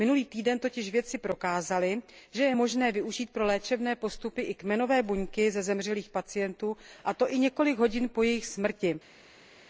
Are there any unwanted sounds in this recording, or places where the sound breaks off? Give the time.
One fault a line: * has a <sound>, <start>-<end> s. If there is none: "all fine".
all fine